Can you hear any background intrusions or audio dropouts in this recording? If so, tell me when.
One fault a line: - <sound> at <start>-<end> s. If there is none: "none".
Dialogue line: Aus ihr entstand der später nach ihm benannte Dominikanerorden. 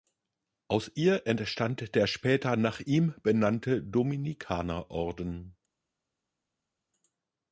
none